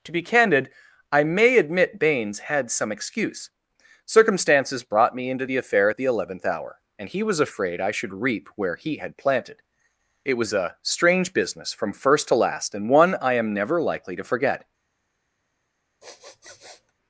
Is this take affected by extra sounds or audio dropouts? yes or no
yes